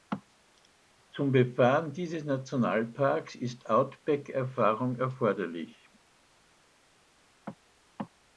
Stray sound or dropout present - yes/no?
no